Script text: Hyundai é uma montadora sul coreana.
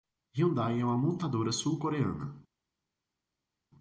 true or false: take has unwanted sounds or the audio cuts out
false